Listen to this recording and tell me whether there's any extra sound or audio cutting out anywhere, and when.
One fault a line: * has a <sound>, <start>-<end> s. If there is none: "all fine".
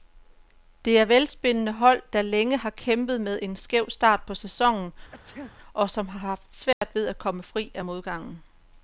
* has a sneeze, 5.1-5.5 s
* has a dropout, 6.7-6.8 s